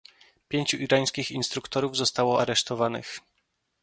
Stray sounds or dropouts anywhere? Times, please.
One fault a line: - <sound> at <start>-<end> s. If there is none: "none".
none